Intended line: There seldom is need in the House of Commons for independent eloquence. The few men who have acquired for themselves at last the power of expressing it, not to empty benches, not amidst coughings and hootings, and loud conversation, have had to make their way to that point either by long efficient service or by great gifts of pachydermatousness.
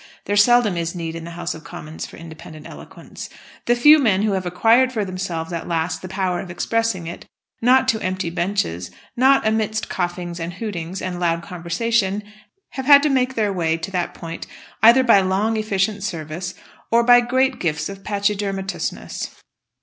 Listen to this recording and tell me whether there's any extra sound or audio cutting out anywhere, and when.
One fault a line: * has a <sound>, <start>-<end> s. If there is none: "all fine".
all fine